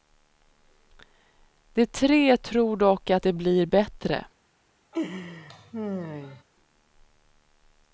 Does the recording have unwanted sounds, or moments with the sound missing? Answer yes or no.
yes